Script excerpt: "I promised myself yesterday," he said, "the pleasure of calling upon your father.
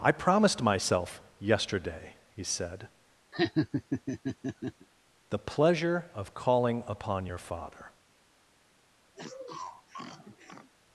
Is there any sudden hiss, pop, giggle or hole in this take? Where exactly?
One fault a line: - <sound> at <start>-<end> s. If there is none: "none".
- laugh at 3.3-4.9 s
- sniff at 9.1-10.7 s